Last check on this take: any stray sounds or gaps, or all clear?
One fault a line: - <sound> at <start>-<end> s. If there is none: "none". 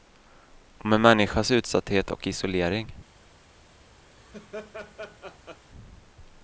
- laugh at 4.1-5.6 s